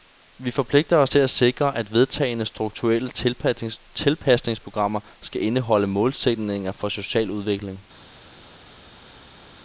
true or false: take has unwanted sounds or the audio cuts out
false